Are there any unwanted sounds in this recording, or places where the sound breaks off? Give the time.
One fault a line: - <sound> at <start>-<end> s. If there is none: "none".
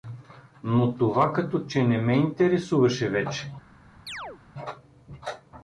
- chirp at 4.1-4.4 s